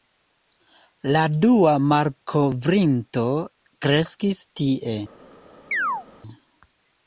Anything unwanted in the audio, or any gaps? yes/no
yes